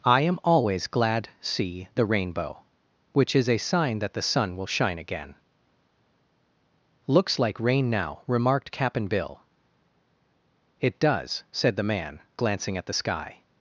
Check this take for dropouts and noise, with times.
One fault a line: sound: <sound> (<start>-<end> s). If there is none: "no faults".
no faults